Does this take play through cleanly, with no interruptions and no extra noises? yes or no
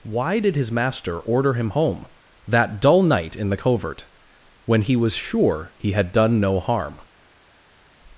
yes